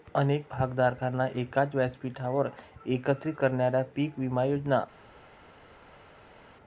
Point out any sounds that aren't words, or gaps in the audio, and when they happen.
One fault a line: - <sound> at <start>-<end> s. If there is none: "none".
none